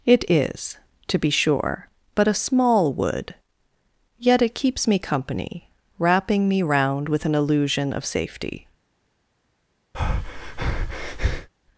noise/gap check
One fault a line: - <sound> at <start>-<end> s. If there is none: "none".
- breath at 9.9-11.5 s